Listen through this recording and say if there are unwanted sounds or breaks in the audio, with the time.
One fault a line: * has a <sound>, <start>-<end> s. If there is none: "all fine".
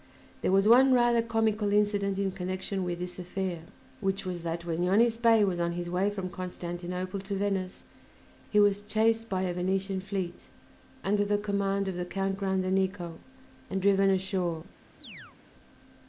* has a chirp, 15.0-15.4 s